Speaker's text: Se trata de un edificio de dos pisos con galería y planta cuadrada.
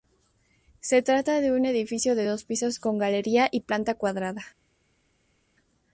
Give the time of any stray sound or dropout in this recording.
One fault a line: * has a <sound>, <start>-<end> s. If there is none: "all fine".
all fine